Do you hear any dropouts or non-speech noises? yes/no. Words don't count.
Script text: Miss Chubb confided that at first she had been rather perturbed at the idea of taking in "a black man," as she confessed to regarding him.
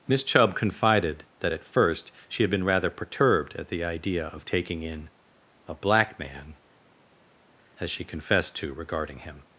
no